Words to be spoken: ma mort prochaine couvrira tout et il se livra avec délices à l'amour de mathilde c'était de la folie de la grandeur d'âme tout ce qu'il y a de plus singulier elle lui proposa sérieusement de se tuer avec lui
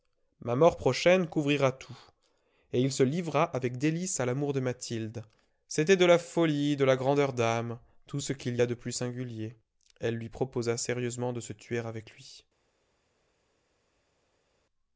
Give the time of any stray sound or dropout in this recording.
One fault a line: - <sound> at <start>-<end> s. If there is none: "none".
none